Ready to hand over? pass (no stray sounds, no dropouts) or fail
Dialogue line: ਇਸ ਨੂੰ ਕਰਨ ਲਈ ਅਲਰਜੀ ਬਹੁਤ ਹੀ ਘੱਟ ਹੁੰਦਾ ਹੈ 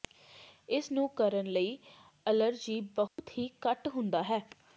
fail